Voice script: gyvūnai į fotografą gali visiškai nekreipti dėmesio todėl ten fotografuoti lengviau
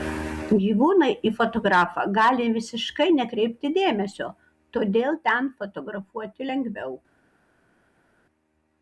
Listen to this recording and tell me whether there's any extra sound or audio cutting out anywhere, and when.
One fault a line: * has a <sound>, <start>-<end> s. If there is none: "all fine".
all fine